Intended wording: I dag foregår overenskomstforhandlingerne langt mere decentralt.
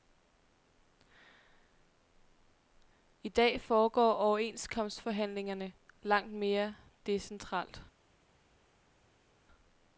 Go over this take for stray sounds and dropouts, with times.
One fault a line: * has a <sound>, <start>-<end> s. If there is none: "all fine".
all fine